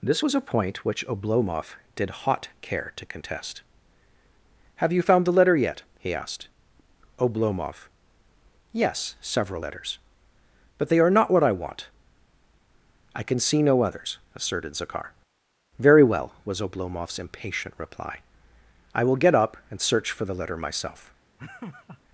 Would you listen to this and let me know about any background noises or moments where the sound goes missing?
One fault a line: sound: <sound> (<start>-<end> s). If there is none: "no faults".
sound: laugh (21.4-22.0 s)